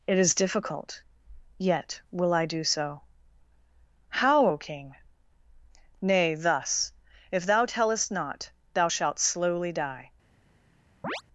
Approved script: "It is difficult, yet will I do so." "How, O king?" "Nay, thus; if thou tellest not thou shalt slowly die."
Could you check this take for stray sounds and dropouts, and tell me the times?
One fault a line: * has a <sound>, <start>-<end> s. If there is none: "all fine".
* has a chirp, 11.0-11.2 s